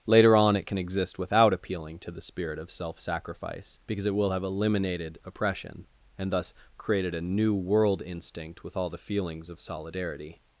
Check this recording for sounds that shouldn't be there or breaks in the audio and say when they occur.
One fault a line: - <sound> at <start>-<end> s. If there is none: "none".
none